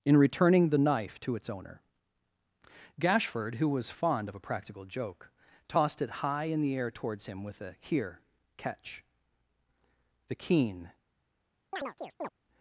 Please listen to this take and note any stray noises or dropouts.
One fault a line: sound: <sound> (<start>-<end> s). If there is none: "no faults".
sound: chirp (11.7-12.3 s)